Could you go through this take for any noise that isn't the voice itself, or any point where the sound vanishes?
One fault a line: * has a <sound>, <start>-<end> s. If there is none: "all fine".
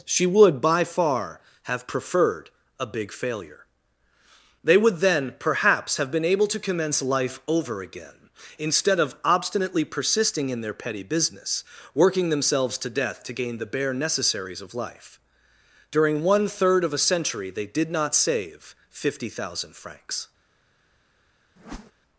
* has a whoosh, 21.6-21.9 s